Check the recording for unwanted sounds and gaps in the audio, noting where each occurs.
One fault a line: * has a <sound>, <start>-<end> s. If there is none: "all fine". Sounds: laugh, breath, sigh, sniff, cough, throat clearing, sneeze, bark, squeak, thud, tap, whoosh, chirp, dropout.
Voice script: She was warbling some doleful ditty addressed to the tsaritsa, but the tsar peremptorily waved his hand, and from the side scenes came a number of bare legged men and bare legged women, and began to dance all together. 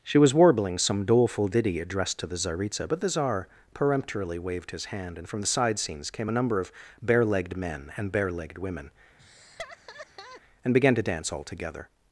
* has a laugh, 9.2-10.4 s